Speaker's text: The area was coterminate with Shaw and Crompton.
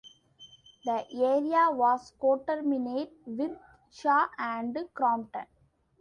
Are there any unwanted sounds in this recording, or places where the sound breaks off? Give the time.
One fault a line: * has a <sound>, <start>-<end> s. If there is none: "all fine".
all fine